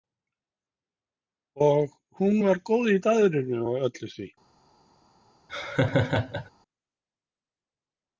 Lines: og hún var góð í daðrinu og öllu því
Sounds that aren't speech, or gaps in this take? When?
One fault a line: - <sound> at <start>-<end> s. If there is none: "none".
- laugh at 5.5-6.5 s